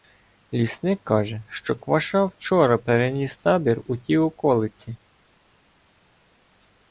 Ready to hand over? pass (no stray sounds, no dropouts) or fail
pass